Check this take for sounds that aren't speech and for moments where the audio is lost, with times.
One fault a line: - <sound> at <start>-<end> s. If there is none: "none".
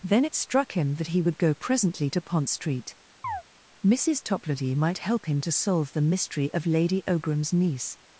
- chirp at 3.2-3.4 s